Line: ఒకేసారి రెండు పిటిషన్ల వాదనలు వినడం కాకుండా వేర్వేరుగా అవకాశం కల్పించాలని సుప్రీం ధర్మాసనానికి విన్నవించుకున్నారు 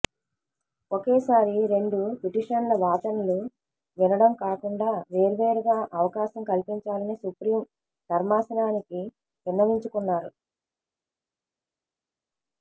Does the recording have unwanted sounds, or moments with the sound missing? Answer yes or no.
no